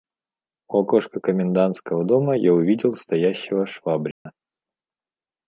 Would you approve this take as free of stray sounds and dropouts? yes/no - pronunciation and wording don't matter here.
no